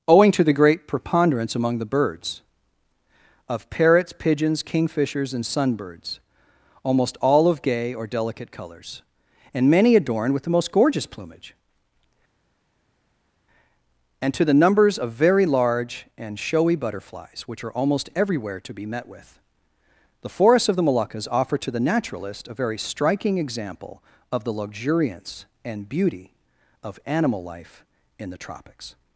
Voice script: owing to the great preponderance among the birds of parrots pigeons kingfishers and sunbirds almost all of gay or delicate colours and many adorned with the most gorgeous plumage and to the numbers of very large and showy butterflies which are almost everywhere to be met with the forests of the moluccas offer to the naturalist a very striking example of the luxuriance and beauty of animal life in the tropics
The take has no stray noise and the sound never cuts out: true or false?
true